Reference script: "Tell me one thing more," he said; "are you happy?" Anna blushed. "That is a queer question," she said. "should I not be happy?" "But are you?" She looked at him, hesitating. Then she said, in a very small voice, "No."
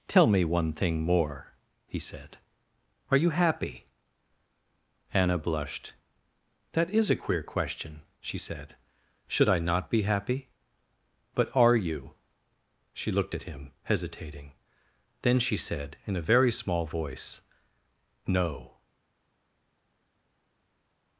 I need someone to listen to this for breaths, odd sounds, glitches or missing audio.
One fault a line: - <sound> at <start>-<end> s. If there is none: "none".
none